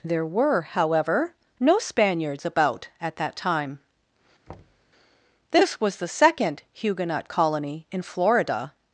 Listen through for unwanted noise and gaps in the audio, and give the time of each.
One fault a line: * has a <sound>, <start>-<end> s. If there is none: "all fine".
* has a thud, 4.5-4.9 s